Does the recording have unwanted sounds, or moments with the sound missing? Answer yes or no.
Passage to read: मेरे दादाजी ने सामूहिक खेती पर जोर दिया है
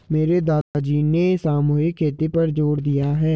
yes